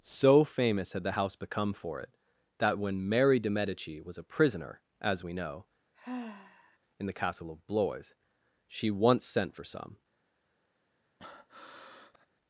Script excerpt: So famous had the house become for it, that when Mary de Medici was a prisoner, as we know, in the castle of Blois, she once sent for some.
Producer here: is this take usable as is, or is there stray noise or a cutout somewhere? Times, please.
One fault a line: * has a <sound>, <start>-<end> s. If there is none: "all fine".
* has a sigh, 5.9-6.8 s
* has a breath, 11.2-12.3 s